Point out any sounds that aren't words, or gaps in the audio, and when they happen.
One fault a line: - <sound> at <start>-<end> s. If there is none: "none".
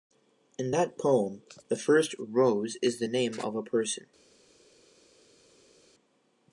none